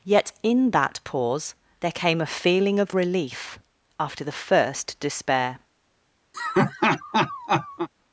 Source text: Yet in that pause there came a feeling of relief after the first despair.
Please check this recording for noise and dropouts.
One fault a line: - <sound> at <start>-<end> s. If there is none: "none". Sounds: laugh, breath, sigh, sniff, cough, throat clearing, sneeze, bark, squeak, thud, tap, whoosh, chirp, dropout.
- laugh at 6.3-7.9 s